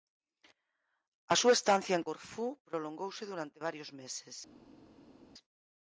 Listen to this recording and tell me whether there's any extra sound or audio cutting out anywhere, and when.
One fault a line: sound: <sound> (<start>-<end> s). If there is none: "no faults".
no faults